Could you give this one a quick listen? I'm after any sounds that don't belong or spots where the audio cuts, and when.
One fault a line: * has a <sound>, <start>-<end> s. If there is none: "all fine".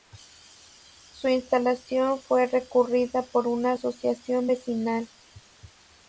all fine